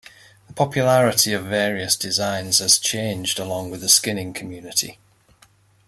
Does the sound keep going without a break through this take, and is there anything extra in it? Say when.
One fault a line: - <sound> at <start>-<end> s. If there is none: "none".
none